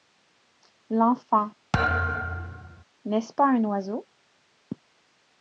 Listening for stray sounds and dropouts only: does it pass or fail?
fail